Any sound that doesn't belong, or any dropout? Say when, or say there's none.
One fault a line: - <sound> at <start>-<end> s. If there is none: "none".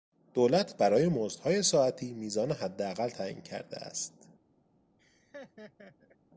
- laugh at 5.0-6.2 s